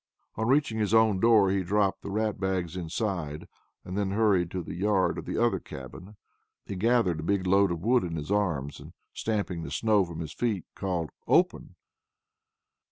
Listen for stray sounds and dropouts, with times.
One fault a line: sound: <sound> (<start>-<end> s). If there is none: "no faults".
no faults